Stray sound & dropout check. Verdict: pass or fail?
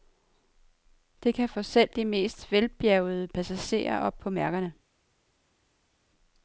pass